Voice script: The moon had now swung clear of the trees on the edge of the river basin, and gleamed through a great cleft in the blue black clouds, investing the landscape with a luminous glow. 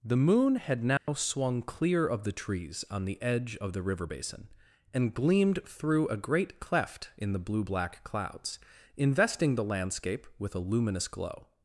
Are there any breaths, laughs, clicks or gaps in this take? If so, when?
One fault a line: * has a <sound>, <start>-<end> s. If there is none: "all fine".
* has a dropout, 1.0-1.1 s